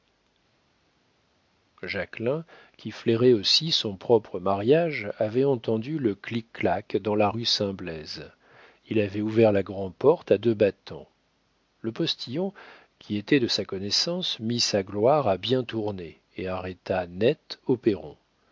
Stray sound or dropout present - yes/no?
no